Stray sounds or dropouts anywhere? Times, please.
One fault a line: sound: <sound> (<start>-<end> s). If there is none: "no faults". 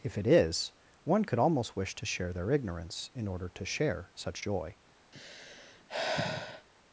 sound: sigh (5.1-6.7 s)